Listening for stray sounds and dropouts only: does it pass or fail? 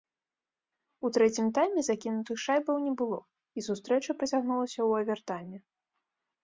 pass